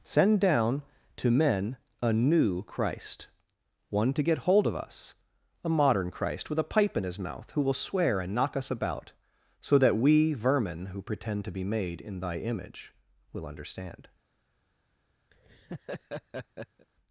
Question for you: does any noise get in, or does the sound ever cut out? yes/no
yes